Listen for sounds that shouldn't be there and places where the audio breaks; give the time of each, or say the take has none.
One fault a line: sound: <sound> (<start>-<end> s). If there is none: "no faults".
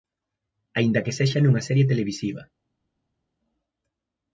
no faults